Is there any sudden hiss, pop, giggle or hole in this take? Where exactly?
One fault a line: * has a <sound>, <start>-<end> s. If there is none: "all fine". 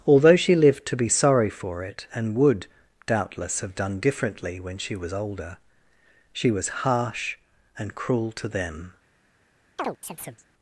* has a chirp, 9.8-10.5 s